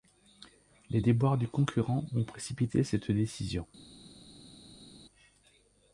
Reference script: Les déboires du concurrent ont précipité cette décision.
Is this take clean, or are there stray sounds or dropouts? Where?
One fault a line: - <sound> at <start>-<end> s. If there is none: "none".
none